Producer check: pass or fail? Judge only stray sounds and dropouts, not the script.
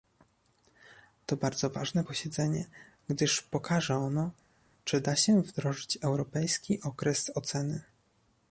pass